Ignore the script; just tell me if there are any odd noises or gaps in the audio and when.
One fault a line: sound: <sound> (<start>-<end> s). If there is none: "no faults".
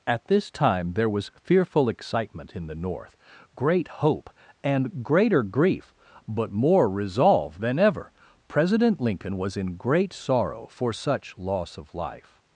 no faults